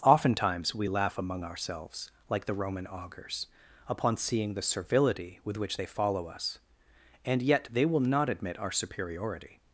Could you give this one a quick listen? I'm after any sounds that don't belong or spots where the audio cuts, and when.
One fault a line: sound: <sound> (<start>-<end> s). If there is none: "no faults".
no faults